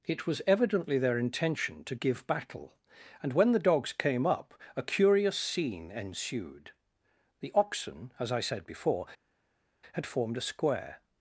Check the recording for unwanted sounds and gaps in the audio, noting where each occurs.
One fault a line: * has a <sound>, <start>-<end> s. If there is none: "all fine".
all fine